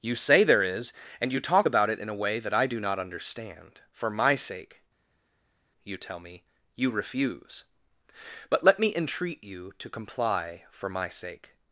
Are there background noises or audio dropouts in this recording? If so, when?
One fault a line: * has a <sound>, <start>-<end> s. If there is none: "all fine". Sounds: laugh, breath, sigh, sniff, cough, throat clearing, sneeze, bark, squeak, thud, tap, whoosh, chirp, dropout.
all fine